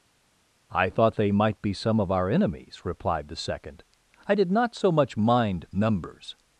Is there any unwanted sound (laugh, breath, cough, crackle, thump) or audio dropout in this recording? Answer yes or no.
no